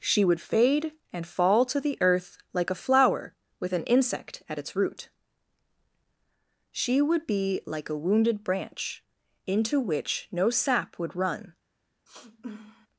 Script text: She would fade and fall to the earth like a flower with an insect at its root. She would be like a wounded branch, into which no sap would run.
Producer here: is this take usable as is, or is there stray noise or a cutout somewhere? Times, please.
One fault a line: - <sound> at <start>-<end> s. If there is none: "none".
- sniff at 12.1-12.9 s